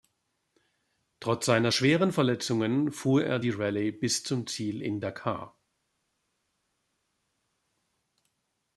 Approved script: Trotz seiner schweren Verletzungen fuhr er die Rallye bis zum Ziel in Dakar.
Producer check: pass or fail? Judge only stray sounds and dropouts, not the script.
pass